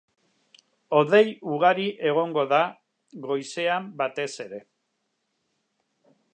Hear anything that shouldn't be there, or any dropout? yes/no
no